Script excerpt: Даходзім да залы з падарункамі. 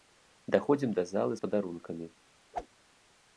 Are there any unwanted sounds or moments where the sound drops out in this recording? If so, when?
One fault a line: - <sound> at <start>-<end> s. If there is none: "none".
- whoosh at 2.5-2.7 s